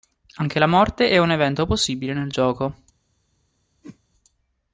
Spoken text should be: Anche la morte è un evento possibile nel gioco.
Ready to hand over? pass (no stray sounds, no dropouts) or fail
fail